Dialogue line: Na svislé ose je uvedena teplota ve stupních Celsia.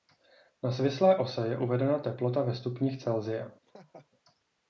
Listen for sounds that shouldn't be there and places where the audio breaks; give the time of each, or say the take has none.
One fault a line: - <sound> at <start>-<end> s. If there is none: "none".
- laugh at 3.6-4.1 s